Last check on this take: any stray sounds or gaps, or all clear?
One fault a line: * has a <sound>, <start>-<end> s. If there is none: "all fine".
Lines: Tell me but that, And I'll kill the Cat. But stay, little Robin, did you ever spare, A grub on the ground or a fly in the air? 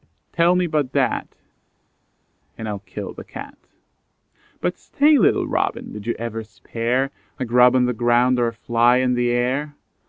all fine